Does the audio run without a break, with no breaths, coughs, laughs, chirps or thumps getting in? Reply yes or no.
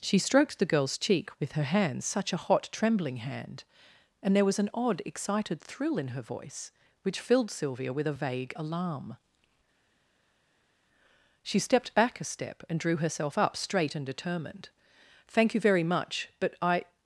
yes